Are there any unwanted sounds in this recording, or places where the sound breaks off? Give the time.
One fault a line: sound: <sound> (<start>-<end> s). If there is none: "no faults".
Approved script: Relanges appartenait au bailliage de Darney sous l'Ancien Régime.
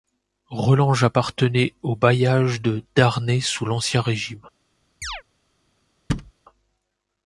sound: chirp (5.0-5.2 s)
sound: thud (6.1-6.3 s)